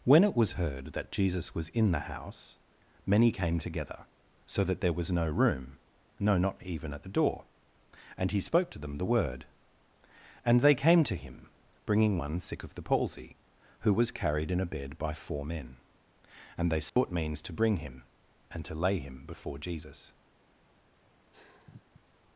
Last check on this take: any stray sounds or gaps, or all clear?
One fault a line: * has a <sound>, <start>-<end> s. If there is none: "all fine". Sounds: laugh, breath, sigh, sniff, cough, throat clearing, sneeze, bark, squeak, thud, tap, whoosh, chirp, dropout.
* has a dropout, 16.9-17.0 s
* has a sigh, 21.3-22.1 s